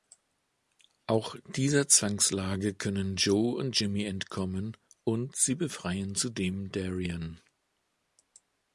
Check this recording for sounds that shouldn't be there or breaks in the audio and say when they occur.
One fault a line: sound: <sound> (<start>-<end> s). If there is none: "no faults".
no faults